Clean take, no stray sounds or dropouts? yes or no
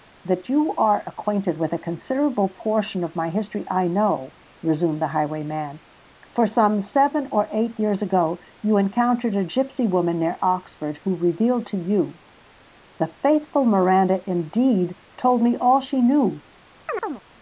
no